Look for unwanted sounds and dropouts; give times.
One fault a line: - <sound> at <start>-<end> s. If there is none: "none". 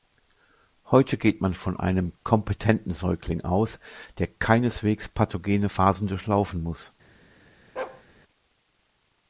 - bark at 7.8-8.0 s